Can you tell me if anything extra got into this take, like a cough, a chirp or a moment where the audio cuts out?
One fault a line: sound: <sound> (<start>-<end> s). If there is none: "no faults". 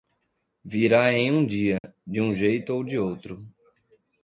sound: dropout (1.8-1.8 s)